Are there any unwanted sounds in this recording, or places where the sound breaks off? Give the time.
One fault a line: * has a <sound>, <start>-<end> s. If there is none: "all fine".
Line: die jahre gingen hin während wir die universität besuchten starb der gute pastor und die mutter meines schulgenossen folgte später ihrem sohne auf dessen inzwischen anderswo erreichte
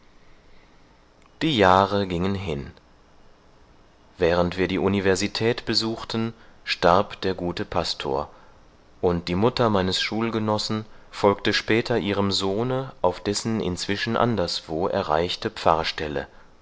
all fine